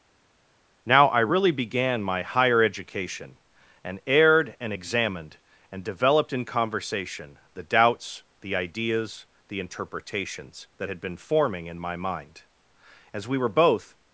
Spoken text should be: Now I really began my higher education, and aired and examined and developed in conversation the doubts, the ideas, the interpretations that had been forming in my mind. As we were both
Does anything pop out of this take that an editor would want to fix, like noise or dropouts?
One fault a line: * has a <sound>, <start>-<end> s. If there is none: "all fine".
all fine